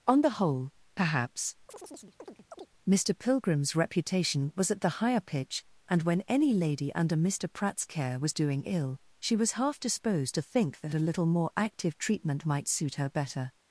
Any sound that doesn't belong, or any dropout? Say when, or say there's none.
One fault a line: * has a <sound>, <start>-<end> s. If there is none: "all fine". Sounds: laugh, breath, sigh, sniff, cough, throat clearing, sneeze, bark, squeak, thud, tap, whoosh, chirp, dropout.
* has a chirp, 1.7-2.7 s